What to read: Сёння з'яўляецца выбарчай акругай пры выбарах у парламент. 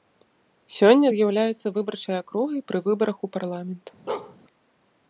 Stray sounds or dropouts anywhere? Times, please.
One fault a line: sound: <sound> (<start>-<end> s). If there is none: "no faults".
sound: bark (4.1-4.4 s)